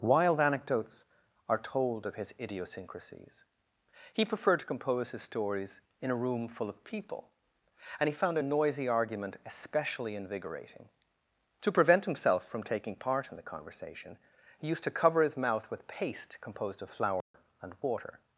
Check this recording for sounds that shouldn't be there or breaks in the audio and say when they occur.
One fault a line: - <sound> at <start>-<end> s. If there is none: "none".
- dropout at 17.2-17.3 s